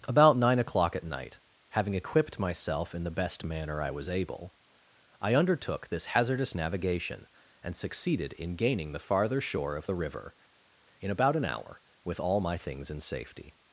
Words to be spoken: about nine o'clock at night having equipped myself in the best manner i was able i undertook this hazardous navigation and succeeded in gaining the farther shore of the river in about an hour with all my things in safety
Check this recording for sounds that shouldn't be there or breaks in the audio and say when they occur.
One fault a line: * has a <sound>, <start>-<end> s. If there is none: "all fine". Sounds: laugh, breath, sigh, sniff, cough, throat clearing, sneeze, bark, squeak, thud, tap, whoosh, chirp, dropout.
all fine